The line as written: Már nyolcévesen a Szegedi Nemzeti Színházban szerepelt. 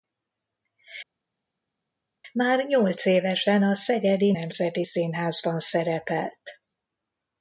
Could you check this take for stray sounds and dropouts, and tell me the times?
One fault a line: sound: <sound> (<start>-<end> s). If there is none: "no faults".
no faults